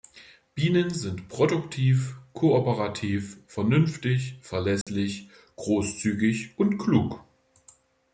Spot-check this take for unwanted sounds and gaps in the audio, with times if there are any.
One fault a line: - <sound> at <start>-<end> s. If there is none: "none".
- dropout at 4.8-4.9 s